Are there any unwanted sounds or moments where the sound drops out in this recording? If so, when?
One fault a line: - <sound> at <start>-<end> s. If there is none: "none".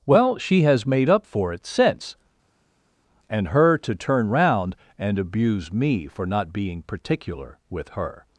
none